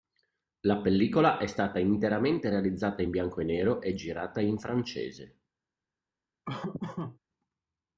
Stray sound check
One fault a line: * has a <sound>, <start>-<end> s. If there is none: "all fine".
* has a laugh, 6.4-7.2 s